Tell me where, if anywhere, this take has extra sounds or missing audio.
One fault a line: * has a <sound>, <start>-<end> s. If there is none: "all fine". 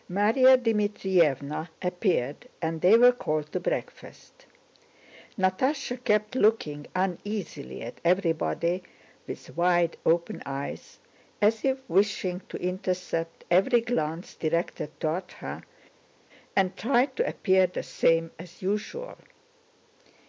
all fine